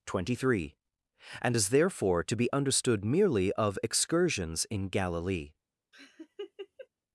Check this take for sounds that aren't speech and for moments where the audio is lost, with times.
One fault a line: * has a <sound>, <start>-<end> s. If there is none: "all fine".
* has a laugh, 5.9-6.9 s